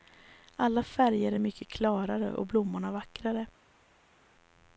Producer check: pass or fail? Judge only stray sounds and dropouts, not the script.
pass